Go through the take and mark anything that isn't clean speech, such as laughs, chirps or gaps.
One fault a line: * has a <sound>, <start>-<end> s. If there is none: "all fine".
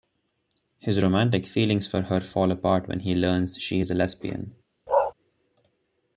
* has a bark, 4.9-5.1 s